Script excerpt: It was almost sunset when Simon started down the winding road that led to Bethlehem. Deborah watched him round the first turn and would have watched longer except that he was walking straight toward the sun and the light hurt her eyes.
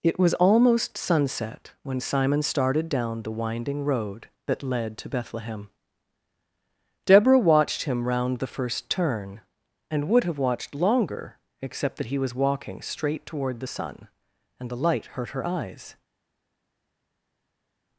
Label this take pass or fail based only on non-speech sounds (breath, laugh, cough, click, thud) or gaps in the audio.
pass